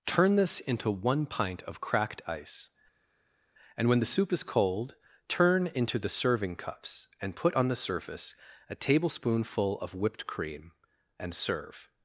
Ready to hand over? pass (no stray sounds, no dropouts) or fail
pass